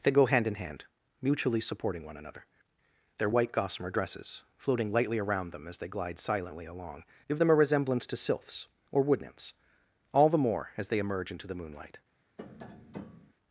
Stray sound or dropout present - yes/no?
yes